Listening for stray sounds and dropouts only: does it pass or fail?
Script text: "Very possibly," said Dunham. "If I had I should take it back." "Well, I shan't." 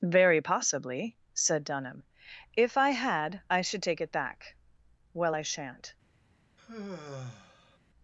fail